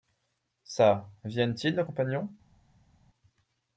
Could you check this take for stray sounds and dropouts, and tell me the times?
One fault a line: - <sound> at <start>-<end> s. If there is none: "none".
none